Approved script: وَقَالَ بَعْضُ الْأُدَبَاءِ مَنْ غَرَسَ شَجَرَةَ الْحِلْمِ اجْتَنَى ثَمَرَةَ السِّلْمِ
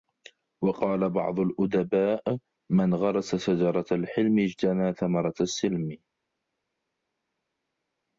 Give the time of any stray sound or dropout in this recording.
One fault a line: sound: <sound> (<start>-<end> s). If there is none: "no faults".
no faults